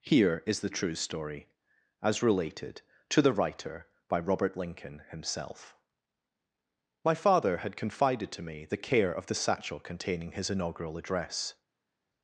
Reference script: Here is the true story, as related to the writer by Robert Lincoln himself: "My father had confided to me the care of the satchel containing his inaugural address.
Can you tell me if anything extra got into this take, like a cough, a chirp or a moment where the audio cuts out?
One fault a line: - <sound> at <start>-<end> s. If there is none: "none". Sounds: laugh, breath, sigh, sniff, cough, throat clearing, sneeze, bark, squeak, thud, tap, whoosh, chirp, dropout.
none